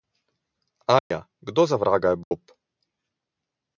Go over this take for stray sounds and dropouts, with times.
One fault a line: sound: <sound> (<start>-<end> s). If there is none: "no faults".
sound: dropout (1.0-1.1 s)
sound: dropout (2.2-2.3 s)